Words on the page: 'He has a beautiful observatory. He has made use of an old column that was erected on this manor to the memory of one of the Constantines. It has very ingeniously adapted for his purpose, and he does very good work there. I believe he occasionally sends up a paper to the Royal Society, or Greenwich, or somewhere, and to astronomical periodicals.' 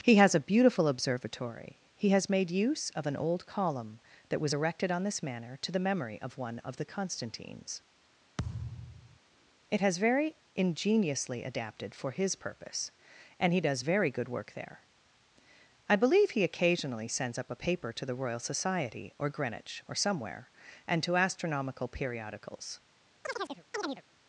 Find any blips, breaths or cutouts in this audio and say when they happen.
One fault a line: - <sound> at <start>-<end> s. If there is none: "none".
- thud at 8.4-9.2 s
- chirp at 23.2-24.0 s